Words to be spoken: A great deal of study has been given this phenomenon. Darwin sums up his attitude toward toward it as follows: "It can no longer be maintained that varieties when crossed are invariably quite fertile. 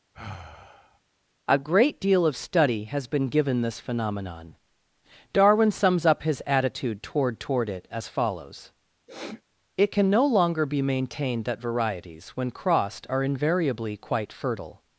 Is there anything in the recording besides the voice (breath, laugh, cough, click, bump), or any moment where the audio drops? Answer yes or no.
yes